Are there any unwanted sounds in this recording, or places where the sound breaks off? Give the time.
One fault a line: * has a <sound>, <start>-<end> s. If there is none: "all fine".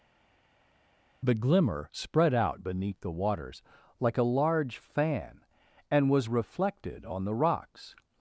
all fine